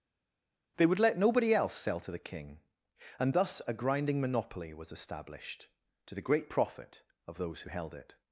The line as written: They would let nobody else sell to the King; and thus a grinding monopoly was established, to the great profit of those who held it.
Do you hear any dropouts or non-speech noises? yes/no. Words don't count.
no